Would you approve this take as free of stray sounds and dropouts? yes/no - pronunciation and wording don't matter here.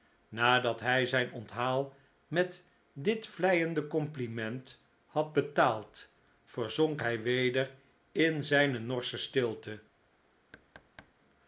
no